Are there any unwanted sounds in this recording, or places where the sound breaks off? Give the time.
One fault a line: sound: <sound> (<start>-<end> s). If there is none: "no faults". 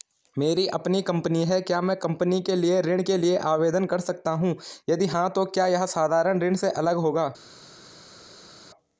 no faults